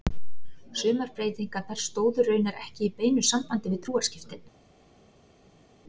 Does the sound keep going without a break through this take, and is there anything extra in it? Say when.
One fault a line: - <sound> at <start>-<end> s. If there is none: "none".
none